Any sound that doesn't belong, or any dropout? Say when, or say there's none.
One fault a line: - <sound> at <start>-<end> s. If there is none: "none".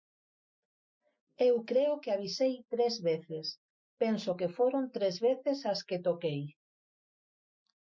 none